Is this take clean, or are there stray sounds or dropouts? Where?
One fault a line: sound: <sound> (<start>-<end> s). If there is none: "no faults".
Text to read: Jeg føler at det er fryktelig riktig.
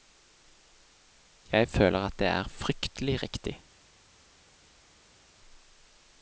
no faults